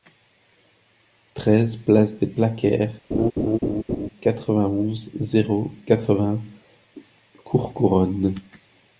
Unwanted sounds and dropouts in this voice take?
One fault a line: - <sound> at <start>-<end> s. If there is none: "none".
- laugh at 3.1-4.1 s